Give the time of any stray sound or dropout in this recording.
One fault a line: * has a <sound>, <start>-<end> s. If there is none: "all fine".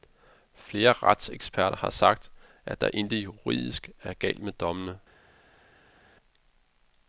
all fine